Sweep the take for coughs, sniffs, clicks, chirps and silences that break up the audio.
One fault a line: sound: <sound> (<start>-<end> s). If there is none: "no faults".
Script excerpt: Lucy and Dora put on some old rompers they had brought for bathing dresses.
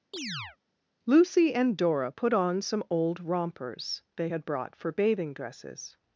sound: chirp (0.1-0.6 s)